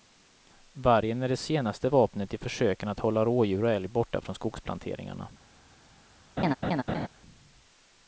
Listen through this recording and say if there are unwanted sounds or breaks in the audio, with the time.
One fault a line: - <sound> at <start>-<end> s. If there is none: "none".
- laugh at 6.4-7.1 s